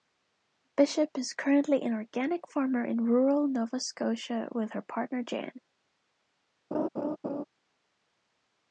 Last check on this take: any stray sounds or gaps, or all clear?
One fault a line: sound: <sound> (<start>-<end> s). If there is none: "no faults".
sound: laugh (6.7-7.4 s)